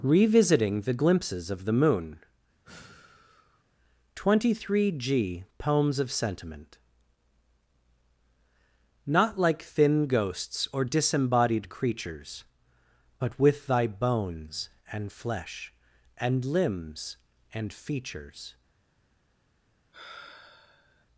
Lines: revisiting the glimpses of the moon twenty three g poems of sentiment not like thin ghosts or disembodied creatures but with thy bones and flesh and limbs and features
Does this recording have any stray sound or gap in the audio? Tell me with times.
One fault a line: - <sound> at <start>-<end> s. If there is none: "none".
- sigh at 2.6-3.6 s
- sigh at 19.9-21.1 s